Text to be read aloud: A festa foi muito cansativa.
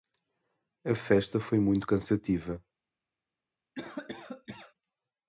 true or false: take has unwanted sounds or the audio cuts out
true